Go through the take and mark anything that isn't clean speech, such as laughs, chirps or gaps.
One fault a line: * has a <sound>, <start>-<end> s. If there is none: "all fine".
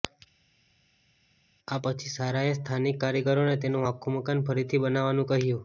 all fine